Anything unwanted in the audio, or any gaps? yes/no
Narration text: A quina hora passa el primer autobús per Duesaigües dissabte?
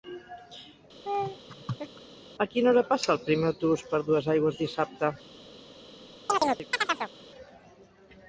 yes